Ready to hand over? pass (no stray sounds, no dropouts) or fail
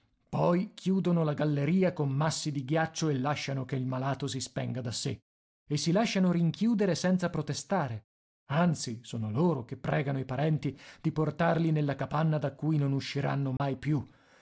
fail